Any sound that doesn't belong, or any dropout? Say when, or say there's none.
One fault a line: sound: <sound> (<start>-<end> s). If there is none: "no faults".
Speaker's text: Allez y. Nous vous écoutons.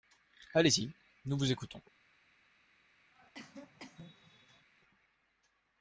sound: cough (3.1-4.7 s)